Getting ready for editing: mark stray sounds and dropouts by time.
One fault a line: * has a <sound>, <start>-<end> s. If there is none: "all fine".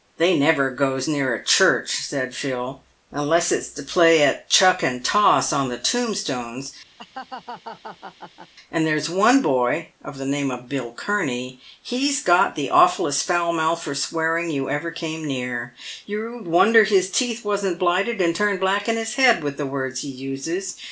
* has a laugh, 7.0-8.5 s